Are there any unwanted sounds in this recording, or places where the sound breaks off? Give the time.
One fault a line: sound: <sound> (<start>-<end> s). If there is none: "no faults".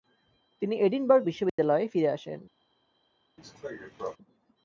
sound: dropout (1.5-1.6 s)
sound: cough (3.4-4.2 s)